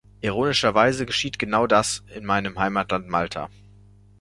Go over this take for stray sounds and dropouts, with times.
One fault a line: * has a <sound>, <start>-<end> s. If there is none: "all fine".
all fine